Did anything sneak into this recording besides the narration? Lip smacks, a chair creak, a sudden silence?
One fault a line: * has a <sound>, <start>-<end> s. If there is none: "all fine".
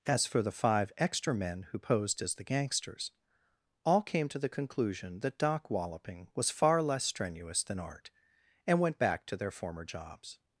all fine